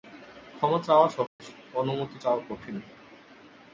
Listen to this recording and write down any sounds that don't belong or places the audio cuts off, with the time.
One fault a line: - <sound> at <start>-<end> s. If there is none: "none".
- dropout at 1.3-1.4 s